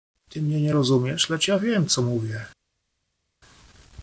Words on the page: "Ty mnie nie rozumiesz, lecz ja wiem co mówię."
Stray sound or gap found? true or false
false